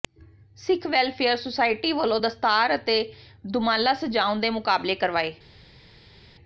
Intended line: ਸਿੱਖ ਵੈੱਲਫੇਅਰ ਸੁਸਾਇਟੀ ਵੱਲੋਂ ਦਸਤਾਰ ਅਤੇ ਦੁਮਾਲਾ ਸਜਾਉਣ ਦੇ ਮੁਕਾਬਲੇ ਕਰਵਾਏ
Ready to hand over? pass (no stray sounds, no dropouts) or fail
pass